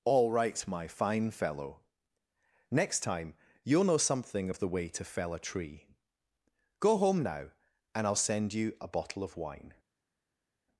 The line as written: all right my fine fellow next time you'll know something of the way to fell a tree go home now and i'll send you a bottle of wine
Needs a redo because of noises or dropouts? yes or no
no